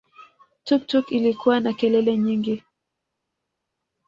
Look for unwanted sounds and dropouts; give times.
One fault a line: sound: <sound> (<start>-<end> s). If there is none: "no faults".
no faults